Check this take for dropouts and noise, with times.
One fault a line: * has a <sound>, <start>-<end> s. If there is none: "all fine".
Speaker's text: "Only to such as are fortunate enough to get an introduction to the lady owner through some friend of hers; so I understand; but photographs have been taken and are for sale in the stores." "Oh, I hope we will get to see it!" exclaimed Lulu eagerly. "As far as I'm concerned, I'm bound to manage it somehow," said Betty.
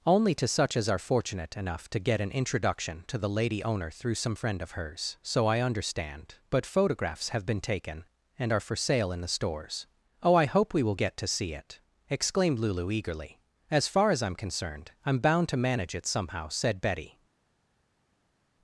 all fine